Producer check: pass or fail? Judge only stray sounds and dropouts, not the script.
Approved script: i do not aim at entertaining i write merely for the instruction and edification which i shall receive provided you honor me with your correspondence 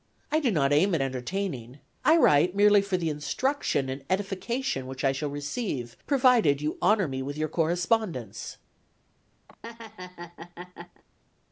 fail